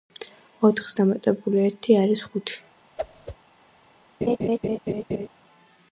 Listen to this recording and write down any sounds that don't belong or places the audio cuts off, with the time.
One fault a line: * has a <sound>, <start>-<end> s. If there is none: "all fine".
* has a whoosh, 3.0-3.4 s
* has a laugh, 4.2-5.3 s